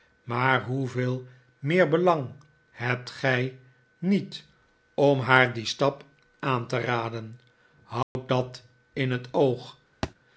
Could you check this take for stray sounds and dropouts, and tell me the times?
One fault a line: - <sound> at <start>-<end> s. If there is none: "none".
- dropout at 8.0-8.2 s
- thud at 10.0-10.1 s